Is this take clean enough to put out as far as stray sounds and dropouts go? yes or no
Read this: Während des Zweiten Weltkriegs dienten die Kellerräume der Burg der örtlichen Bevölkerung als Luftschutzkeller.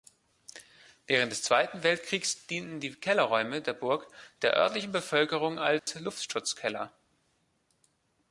no